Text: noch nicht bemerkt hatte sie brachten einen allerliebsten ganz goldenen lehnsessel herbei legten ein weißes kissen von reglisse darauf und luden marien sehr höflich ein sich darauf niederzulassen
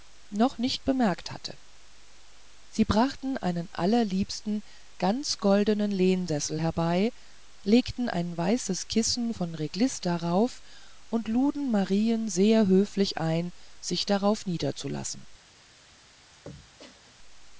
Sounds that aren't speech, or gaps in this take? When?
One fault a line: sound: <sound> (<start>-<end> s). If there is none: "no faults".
sound: throat clearing (16.3-17.1 s)